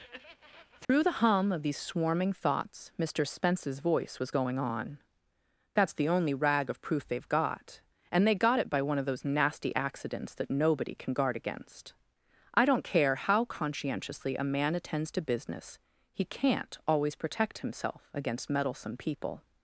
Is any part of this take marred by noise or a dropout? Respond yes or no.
yes